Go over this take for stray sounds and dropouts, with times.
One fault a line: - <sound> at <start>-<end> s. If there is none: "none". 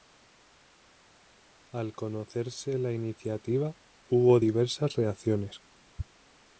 none